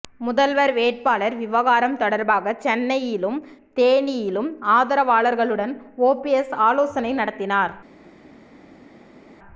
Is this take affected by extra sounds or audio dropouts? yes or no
no